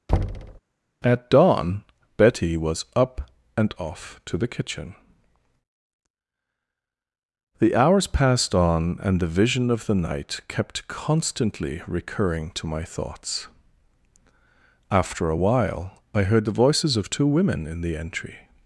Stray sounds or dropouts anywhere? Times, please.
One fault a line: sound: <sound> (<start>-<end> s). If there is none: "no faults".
sound: thud (0.1-0.6 s)